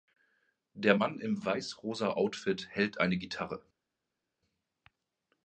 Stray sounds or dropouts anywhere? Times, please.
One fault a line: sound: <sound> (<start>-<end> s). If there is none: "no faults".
no faults